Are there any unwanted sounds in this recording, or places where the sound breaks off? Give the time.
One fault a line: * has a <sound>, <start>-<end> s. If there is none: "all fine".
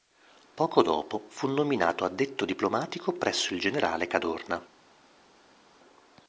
all fine